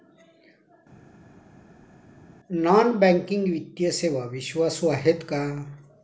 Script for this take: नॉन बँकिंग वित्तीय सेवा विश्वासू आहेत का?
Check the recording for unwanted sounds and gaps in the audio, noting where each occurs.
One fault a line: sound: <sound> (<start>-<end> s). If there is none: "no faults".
no faults